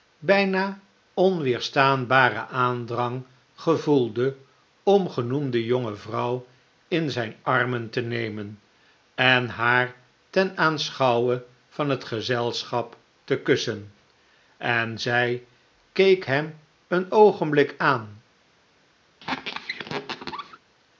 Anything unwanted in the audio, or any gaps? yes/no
yes